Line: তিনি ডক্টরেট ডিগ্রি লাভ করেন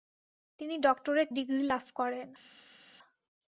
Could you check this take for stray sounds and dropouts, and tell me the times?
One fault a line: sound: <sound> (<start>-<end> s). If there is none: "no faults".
no faults